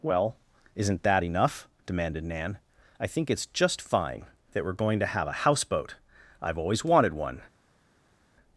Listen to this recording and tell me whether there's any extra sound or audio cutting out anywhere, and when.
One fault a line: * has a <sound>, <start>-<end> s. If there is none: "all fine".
all fine